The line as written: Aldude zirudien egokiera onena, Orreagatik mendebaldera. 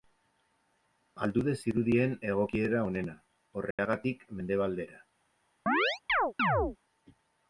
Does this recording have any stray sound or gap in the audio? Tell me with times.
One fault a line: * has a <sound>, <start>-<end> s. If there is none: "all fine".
* has a dropout, 3.7-3.8 s
* has a chirp, 5.7-6.8 s